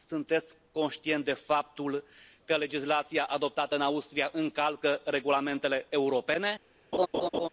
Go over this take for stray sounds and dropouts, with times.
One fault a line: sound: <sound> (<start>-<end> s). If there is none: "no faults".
sound: laugh (6.9-7.5 s)